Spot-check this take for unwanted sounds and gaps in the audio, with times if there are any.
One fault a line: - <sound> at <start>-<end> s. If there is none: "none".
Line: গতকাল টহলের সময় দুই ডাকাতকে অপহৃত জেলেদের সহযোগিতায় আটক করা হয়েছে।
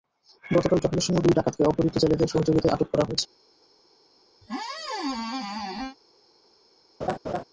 - squeak at 4.4-6.0 s
- laugh at 7.0-7.4 s